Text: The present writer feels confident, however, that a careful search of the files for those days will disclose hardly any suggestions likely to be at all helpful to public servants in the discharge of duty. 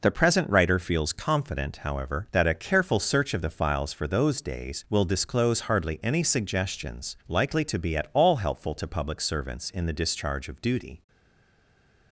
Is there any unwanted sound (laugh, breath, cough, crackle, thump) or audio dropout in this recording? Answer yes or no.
no